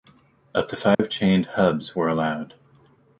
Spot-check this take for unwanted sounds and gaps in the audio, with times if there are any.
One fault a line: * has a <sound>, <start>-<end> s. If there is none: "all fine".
* has a dropout, 0.9-1.0 s